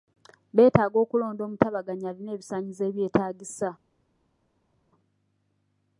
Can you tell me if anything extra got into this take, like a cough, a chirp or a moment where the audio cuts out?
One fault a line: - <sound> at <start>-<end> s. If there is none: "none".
none